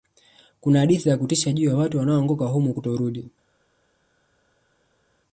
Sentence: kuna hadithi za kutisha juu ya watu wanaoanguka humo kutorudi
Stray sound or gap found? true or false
false